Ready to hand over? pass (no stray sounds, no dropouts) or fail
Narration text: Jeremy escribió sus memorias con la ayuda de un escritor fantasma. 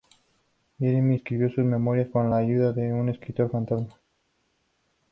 pass